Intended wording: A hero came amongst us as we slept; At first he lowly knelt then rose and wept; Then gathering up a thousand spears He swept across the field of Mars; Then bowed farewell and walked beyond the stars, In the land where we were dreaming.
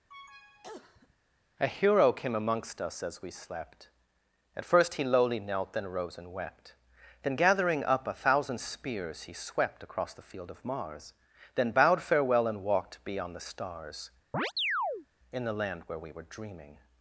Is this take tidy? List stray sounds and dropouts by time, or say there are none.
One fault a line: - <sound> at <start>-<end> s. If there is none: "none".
- cough at 0.1-1.1 s
- chirp at 14.3-15.1 s